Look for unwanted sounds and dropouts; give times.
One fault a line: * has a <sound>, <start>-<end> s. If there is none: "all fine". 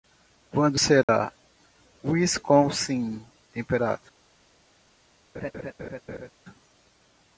* has a dropout, 1.0-1.1 s
* has a laugh, 5.3-6.3 s